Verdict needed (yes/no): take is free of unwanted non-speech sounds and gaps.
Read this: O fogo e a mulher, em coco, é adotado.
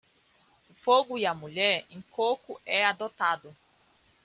yes